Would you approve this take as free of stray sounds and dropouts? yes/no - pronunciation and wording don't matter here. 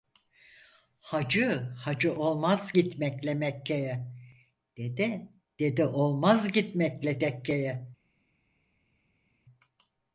yes